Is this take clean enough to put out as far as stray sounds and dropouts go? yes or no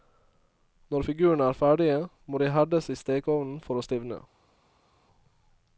yes